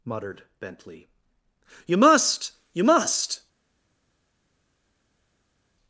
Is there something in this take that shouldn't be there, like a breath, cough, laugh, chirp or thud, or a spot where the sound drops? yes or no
no